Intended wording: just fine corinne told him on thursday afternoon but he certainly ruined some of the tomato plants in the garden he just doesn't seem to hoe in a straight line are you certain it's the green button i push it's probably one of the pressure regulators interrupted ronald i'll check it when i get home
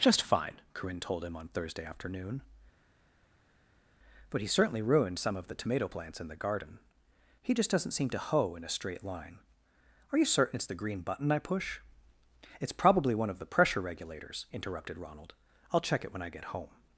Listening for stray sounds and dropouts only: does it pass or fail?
pass